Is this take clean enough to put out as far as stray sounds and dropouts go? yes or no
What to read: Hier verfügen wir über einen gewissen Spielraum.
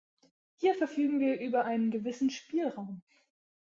yes